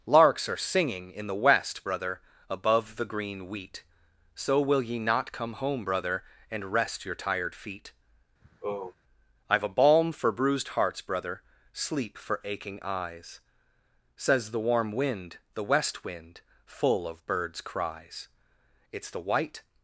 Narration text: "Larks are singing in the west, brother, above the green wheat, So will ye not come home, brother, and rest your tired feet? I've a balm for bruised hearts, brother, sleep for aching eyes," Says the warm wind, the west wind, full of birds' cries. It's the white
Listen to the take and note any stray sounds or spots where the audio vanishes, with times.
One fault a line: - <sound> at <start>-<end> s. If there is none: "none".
- sigh at 8.4-8.9 s